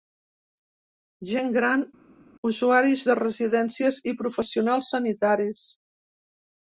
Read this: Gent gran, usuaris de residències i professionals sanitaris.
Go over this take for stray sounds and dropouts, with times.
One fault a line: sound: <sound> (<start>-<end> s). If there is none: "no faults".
no faults